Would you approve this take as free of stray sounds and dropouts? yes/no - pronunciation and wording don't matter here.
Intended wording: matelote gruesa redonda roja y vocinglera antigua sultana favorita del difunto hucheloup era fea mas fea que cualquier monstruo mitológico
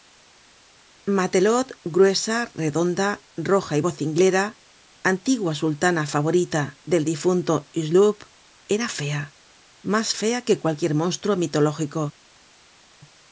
yes